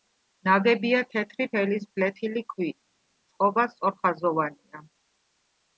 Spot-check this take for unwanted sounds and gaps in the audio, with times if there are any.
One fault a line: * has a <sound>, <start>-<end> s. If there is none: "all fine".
all fine